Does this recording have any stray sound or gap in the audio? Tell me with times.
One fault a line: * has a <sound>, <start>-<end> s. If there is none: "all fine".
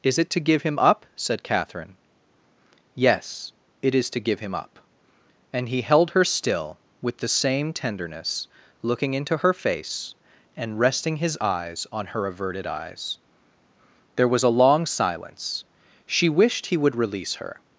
all fine